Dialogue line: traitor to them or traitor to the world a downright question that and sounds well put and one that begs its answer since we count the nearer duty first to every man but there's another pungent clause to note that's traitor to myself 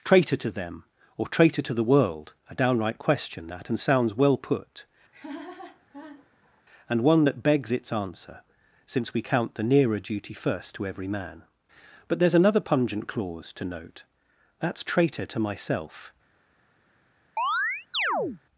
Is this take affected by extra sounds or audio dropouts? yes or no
yes